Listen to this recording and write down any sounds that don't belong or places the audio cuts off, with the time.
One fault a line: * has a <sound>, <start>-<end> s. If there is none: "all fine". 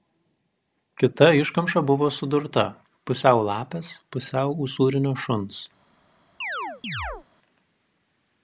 * has a chirp, 6.4-7.3 s